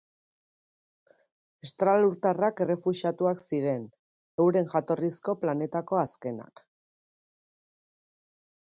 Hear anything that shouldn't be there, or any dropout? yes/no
no